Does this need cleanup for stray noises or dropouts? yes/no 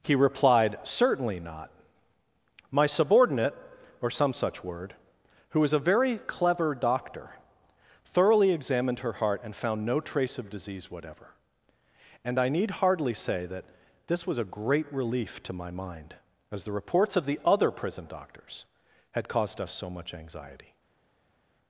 no